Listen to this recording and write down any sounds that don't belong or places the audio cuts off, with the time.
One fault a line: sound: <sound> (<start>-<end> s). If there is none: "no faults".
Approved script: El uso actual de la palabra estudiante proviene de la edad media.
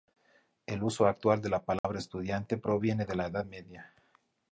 sound: dropout (1.8-1.8 s)